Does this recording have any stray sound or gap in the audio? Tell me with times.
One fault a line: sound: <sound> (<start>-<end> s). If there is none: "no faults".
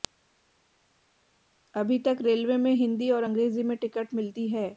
no faults